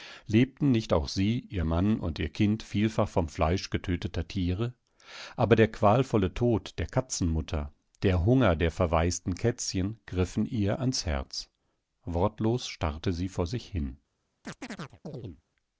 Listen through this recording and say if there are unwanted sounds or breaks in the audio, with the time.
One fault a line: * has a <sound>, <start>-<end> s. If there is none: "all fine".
* has a chirp, 14.4-15.4 s